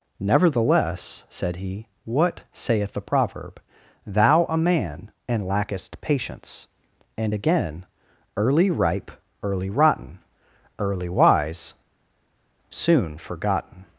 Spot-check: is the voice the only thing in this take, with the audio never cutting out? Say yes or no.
yes